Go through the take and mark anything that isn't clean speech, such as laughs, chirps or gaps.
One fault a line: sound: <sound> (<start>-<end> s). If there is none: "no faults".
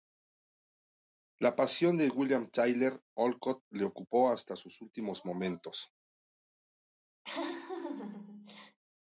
sound: laugh (7.2-8.8 s)